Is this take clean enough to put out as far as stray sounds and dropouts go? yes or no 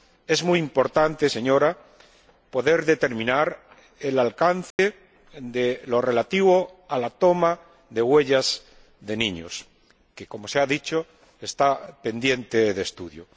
no